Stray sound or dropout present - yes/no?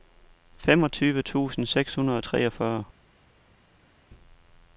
no